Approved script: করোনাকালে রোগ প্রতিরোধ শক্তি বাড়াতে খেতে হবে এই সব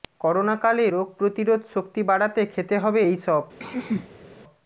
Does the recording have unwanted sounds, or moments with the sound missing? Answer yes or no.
yes